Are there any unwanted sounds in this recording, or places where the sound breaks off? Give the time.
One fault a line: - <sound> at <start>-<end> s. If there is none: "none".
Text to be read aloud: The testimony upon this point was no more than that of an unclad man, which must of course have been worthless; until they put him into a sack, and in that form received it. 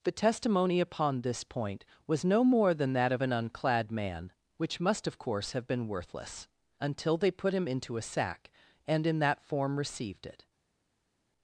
none